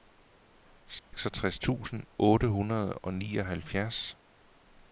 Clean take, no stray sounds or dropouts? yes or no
no